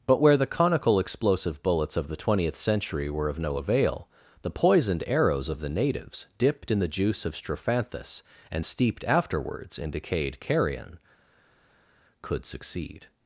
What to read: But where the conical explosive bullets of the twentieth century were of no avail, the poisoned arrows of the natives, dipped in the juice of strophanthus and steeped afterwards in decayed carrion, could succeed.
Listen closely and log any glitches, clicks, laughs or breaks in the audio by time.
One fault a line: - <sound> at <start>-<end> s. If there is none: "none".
none